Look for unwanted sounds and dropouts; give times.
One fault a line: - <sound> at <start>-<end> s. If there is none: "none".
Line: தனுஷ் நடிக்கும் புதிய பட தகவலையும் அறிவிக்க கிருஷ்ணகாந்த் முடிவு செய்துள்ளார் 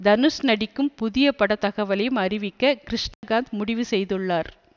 - dropout at 3.1-3.2 s